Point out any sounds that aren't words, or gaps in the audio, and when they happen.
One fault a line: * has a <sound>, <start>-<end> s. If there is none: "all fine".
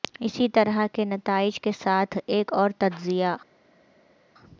all fine